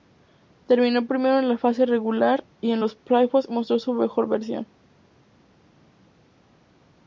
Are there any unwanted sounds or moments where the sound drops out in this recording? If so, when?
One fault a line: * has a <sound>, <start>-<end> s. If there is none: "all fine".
all fine